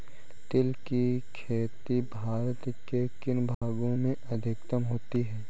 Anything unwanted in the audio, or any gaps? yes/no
yes